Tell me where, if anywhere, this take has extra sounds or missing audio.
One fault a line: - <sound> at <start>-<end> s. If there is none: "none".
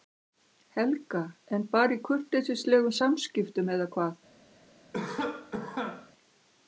- cough at 4.9-6.1 s